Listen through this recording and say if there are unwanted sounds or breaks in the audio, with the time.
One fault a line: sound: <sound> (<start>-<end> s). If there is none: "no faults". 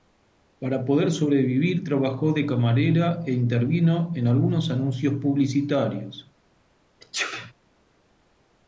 sound: sneeze (7.0-7.5 s)